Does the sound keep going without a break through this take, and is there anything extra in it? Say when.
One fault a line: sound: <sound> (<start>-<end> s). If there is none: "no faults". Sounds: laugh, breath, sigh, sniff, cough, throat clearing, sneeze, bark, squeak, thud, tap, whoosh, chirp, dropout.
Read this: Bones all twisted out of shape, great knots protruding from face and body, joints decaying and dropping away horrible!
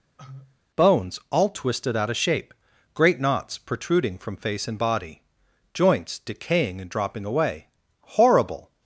sound: cough (0.2-0.6 s)